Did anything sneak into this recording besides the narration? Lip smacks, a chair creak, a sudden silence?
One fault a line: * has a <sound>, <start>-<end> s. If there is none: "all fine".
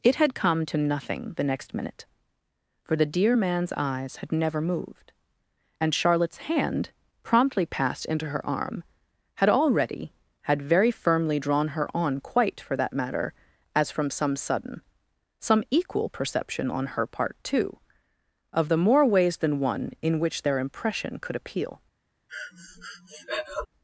* has a breath, 22.3-23.7 s